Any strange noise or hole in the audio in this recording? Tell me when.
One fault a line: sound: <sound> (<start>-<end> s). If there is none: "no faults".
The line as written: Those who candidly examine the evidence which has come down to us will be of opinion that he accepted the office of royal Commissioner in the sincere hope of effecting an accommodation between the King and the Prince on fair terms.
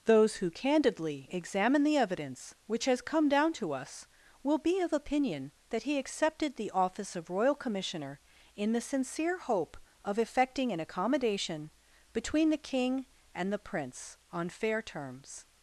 no faults